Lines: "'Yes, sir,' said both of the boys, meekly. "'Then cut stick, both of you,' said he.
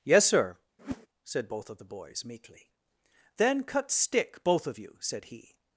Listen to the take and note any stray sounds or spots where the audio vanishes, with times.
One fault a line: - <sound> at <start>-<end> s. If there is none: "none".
- whoosh at 0.8-1.1 s